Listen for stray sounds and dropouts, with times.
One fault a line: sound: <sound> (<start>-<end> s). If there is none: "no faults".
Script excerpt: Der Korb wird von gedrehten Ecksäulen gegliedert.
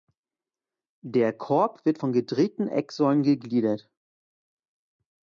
no faults